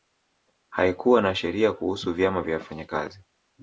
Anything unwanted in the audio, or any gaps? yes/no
no